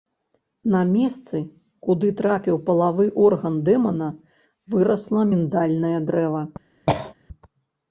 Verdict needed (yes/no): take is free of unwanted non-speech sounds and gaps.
no